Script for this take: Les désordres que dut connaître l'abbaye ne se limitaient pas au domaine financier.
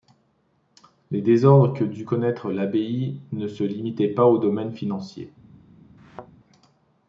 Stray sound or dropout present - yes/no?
yes